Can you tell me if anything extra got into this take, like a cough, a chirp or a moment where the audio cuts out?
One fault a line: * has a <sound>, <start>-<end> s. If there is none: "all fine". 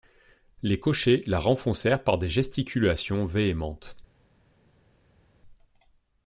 all fine